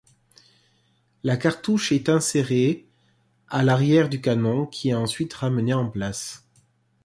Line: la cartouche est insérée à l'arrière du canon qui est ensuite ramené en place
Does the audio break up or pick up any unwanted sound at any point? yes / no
no